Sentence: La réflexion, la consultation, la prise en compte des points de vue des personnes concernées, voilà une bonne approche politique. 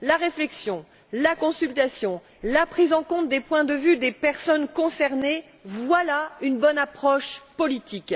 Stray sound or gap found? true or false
false